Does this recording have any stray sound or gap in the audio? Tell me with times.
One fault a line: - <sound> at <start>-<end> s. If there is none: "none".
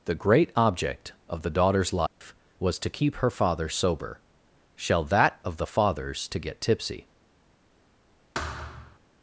- dropout at 2.1-2.2 s
- thud at 8.3-9.0 s